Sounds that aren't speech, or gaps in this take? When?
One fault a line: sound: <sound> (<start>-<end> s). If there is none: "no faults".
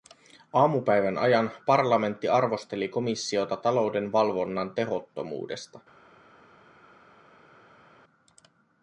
no faults